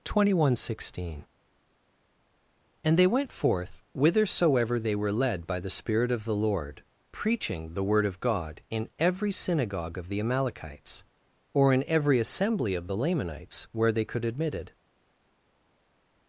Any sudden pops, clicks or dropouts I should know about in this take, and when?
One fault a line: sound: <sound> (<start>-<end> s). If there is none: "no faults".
no faults